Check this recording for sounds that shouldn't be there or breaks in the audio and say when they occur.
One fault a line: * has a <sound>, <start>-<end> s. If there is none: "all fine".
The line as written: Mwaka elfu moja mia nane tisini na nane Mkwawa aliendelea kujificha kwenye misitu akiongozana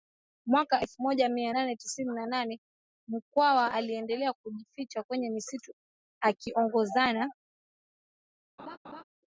* has a laugh, 8.6-9.0 s